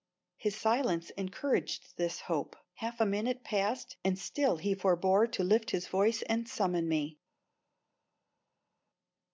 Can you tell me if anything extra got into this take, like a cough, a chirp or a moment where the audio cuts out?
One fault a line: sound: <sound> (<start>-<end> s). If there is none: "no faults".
no faults